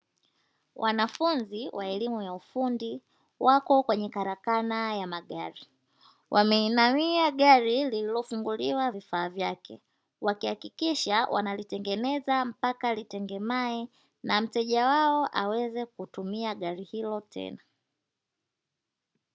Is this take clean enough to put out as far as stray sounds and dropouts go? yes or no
yes